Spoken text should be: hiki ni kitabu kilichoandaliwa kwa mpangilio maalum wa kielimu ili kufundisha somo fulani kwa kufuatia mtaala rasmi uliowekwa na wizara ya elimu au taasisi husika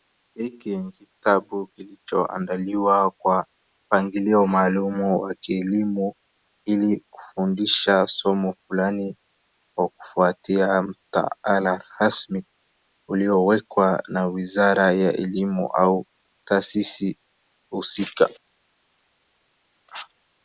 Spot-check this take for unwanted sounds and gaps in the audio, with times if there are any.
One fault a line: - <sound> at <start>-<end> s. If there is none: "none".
none